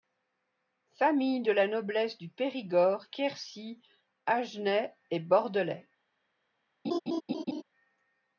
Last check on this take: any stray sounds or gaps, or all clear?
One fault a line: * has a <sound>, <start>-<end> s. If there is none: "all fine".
* has a laugh, 6.8-7.6 s